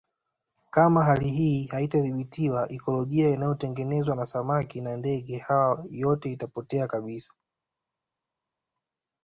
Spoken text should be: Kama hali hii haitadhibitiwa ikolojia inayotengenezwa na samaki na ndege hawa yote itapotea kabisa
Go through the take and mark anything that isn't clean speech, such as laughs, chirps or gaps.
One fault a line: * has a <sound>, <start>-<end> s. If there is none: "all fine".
all fine